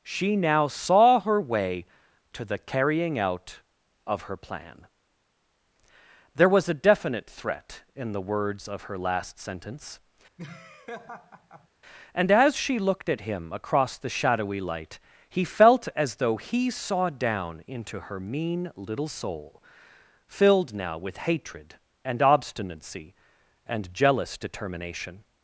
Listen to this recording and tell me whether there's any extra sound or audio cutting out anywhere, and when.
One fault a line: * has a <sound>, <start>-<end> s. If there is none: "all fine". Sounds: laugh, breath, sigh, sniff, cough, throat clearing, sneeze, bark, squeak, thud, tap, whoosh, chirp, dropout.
* has a laugh, 10.4-11.7 s